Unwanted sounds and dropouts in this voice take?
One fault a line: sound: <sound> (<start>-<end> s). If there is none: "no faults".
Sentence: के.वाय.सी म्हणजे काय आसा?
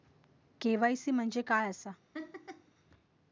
sound: laugh (2.1-2.7 s)